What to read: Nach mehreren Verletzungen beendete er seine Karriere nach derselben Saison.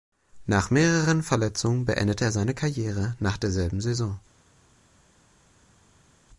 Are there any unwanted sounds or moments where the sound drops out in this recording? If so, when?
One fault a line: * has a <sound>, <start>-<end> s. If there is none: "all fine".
all fine